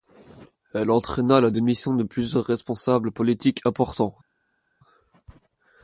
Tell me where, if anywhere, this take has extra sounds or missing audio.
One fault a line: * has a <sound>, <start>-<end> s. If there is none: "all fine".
all fine